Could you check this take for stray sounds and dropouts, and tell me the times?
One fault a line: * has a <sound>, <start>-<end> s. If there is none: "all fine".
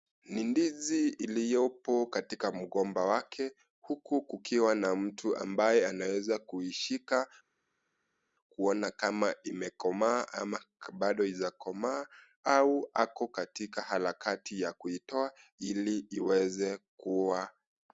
all fine